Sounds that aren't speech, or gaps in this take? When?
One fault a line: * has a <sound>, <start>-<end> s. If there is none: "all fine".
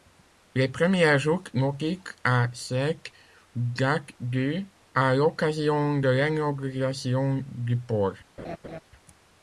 * has a laugh, 8.4-8.8 s